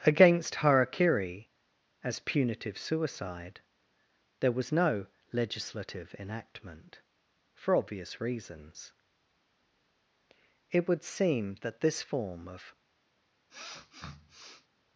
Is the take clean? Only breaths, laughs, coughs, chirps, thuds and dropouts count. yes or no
no